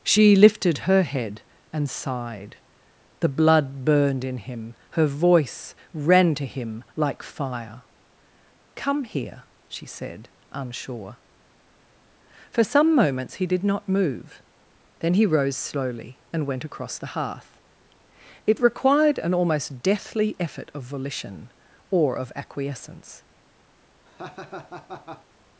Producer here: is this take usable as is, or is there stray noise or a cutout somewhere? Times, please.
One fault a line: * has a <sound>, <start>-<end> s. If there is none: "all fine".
* has a laugh, 24.0-25.3 s